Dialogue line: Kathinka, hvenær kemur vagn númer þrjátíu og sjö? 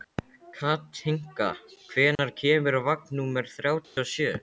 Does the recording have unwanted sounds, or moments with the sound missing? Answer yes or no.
yes